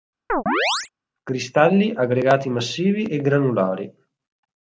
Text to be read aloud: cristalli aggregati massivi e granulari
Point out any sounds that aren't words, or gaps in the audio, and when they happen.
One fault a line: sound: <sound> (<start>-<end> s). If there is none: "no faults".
sound: chirp (0.3-0.9 s)